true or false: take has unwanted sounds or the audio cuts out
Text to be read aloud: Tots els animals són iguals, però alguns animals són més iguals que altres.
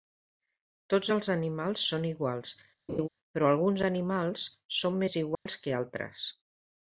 true